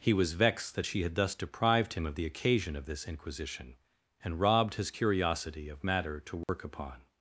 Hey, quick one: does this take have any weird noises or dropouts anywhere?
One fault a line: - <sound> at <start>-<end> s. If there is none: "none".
- dropout at 6.4-6.5 s